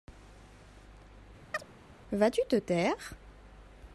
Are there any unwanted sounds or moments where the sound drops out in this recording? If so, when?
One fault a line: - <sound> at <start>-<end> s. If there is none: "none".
- chirp at 1.5-1.6 s